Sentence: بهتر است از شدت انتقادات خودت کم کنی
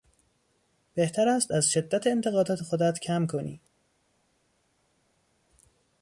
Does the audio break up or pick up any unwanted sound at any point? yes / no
no